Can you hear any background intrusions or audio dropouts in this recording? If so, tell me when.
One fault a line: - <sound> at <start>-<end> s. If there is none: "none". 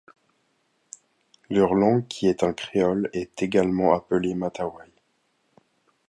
none